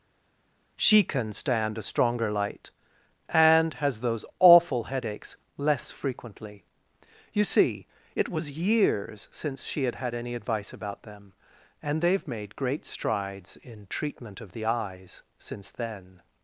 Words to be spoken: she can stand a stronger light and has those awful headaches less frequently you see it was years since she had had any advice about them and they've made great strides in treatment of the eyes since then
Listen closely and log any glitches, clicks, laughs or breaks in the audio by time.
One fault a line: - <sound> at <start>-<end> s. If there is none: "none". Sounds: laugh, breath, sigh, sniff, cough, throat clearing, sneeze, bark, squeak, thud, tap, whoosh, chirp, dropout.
none